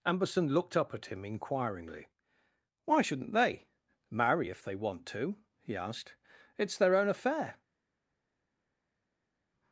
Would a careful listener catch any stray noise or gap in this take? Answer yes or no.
no